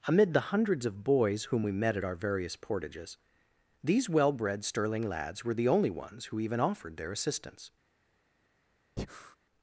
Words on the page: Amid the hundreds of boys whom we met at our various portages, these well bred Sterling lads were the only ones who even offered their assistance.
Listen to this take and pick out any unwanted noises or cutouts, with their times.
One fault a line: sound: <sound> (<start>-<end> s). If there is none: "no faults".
sound: breath (9.0-9.4 s)